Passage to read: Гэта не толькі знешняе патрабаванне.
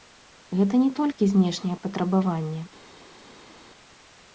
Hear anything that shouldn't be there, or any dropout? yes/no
no